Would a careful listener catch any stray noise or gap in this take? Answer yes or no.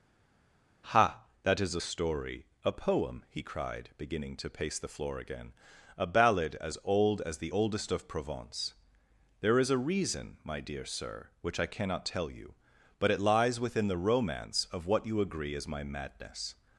no